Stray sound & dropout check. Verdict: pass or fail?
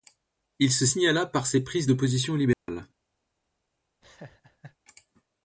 fail